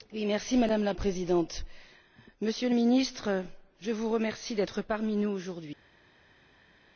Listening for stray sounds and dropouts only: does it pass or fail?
pass